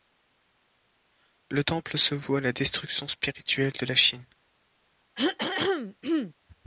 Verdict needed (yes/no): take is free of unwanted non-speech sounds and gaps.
no